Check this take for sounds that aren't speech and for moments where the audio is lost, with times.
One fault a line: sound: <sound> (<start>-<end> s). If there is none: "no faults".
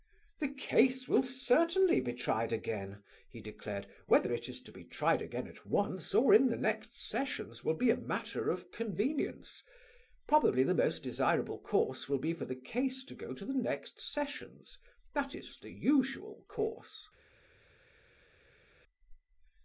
no faults